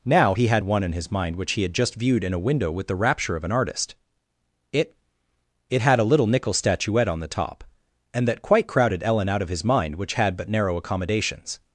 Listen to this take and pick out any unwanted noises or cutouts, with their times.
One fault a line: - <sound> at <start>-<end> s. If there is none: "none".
none